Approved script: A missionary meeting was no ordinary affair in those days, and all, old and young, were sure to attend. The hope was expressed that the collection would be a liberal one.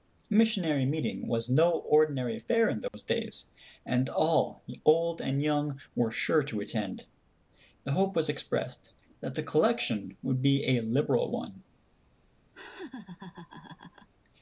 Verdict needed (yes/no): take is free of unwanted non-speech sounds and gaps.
no